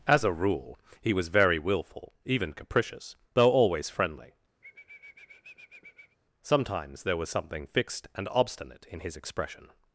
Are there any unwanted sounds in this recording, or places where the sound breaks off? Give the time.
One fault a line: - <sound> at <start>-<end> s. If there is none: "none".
- sniff at 4.6-6.2 s